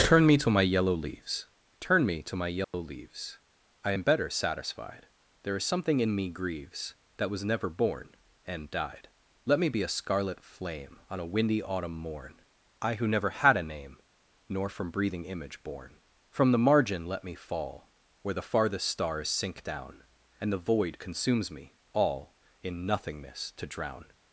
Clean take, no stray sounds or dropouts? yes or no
no